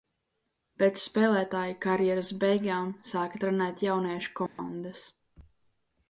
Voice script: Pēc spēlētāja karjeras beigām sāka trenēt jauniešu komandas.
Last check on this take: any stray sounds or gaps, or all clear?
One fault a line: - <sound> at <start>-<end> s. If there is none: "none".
- dropout at 4.5-4.6 s